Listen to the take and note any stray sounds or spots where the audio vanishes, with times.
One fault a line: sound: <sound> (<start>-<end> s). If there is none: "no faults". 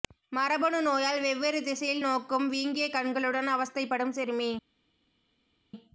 no faults